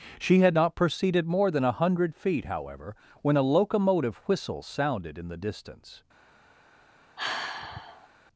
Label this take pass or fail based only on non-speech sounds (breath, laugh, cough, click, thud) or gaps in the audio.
fail